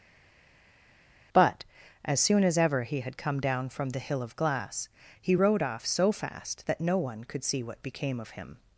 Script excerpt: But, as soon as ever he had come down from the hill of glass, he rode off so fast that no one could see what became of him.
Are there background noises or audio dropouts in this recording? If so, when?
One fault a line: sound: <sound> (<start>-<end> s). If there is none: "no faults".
no faults